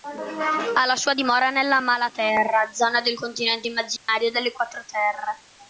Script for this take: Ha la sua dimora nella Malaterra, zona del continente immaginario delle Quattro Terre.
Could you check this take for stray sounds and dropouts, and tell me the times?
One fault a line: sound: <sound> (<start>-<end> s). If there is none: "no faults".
sound: dropout (4.0-4.1 s)